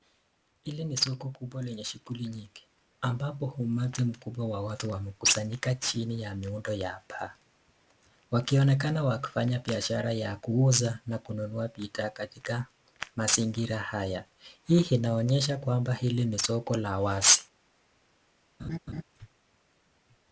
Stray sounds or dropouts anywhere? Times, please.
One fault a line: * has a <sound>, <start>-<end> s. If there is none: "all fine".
* has a laugh, 18.6-19.0 s